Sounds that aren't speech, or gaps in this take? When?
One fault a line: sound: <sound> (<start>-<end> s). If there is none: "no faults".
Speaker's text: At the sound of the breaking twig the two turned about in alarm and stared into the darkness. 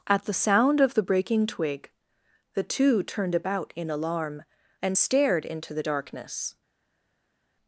no faults